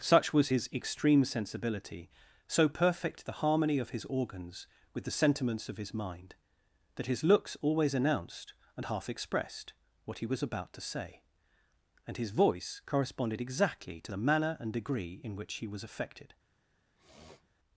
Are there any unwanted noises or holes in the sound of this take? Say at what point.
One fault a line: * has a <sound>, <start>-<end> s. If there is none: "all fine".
* has a sniff, 17.0-17.5 s